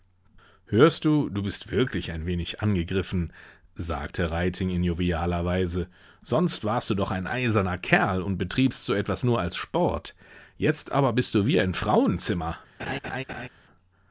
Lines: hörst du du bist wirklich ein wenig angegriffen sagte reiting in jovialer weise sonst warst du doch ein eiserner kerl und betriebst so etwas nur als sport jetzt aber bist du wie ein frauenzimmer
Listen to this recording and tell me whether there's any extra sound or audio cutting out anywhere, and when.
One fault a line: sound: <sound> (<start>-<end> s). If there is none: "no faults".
sound: laugh (12.8-13.5 s)